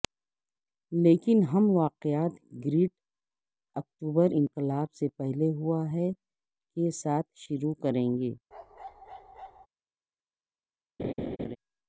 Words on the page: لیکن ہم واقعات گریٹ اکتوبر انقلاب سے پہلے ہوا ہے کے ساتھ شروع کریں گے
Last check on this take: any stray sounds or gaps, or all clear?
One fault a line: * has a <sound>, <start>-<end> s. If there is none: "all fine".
* has a bark, 8.5-9.7 s
* has a laugh, 11.0-11.6 s